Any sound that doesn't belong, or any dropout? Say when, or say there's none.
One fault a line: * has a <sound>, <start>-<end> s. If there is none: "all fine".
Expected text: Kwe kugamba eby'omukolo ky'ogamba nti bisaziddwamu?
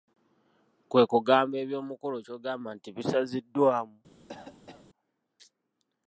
* has a cough, 4.3-4.9 s